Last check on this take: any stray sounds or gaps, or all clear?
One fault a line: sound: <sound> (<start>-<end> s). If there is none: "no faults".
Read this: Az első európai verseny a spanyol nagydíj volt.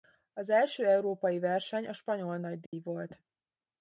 sound: dropout (2.7-2.7 s)